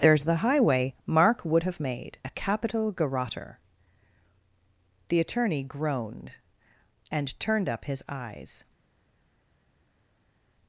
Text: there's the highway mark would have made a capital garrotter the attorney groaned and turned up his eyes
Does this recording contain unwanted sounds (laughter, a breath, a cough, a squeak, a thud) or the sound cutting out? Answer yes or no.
no